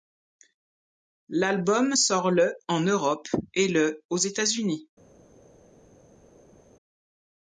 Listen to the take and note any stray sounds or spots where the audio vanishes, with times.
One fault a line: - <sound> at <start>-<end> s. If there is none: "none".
none